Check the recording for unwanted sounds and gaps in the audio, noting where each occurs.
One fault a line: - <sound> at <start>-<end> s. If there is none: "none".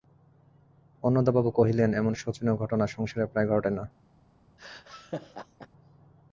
- laugh at 4.6-5.7 s